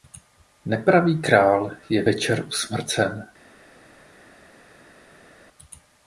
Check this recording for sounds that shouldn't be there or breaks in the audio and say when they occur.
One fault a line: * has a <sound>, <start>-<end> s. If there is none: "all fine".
all fine